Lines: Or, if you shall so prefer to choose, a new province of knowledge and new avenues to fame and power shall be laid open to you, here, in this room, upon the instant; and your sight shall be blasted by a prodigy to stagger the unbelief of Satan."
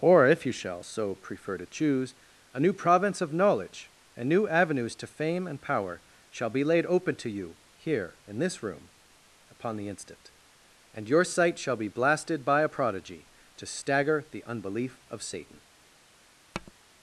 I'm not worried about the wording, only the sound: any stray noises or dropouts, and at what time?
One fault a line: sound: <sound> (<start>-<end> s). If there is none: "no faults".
sound: tap (16.5-16.7 s)